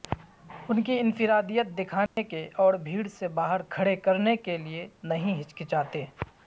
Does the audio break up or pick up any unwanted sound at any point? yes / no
yes